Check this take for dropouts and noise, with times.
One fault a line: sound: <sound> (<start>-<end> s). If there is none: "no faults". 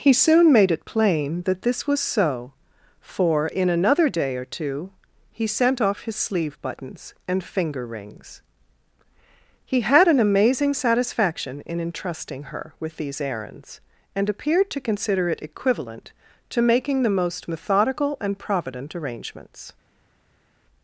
no faults